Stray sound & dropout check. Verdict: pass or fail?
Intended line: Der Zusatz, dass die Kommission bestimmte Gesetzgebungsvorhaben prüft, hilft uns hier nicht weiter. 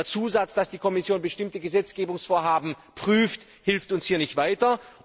pass